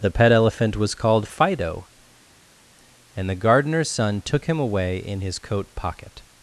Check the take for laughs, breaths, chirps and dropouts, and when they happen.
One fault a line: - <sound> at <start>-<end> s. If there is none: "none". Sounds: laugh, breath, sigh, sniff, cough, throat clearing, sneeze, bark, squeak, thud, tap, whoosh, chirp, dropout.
none